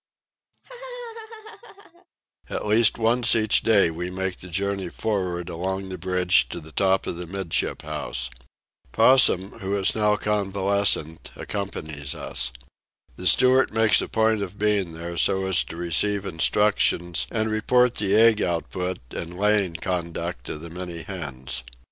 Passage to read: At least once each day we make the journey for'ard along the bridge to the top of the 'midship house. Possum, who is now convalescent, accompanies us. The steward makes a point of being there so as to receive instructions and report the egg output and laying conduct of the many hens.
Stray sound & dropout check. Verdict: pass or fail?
fail